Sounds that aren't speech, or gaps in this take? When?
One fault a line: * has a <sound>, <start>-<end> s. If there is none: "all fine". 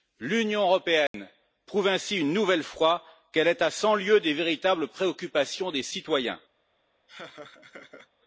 * has a dropout, 1.1-1.1 s
* has a laugh, 7.1-8.1 s